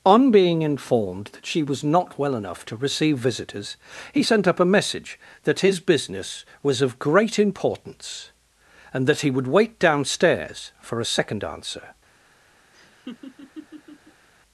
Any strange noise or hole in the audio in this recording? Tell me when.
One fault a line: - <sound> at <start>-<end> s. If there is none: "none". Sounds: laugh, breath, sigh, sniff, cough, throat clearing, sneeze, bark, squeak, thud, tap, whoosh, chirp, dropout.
- laugh at 12.7-14.3 s